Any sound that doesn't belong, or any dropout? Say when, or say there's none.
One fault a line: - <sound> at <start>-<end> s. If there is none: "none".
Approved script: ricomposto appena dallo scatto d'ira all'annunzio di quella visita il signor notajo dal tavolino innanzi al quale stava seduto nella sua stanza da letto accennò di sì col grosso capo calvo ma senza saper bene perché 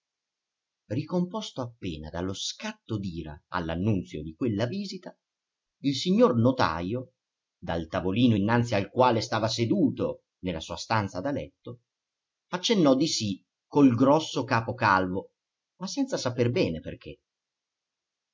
none